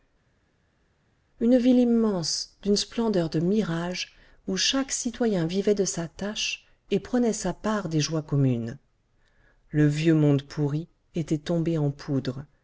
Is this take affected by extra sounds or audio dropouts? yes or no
no